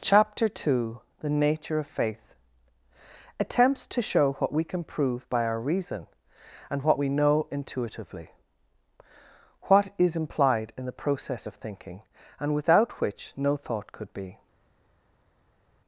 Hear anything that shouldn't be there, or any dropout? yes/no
no